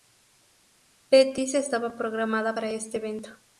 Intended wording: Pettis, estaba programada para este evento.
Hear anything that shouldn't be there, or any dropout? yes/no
no